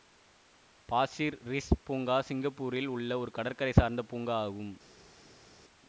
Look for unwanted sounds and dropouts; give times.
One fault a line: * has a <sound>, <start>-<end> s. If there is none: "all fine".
all fine